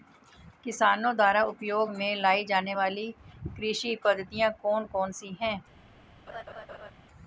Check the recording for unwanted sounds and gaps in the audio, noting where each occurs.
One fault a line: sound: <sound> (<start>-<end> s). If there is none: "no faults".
sound: laugh (6.3-6.9 s)